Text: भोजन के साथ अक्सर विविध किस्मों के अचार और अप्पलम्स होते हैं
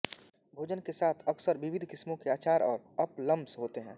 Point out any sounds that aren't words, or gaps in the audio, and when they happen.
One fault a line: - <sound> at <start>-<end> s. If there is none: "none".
none